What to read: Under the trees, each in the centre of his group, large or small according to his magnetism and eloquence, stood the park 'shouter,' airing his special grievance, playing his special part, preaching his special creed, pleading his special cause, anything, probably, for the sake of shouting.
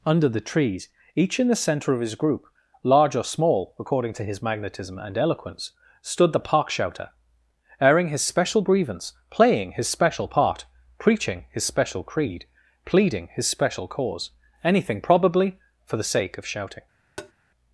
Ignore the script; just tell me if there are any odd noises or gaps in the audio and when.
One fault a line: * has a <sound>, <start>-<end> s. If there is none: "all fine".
* has a tap, 17.2-17.3 s